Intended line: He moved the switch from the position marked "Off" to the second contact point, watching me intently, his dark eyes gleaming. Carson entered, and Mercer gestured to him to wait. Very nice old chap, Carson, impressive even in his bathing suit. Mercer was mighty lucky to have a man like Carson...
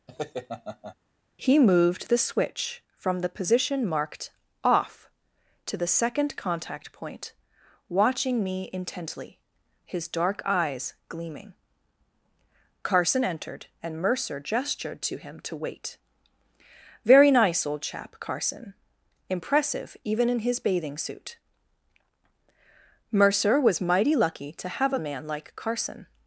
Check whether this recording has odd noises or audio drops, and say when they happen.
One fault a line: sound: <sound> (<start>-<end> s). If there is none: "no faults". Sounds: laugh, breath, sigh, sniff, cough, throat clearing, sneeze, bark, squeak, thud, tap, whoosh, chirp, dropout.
sound: laugh (0.1-1.0 s)